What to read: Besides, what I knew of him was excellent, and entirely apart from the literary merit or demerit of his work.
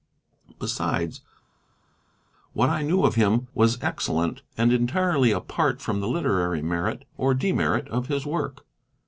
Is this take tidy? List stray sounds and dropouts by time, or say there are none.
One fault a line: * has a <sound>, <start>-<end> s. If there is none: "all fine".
all fine